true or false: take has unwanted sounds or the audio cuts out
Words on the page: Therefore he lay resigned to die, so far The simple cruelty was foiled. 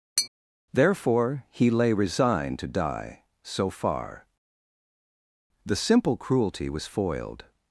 true